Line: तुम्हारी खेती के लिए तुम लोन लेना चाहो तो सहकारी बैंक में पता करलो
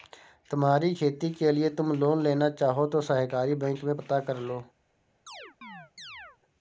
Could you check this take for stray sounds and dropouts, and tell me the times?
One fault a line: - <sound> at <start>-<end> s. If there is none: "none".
- chirp at 5.3-6.4 s